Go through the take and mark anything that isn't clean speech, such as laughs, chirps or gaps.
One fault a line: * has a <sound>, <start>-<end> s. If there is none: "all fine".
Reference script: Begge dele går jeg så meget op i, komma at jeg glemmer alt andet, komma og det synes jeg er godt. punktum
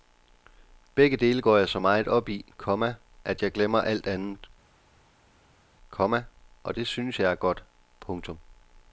all fine